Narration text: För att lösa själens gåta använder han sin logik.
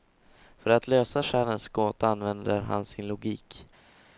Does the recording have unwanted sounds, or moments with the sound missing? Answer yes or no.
no